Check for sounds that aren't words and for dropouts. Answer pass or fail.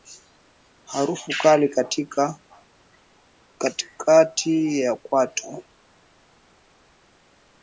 pass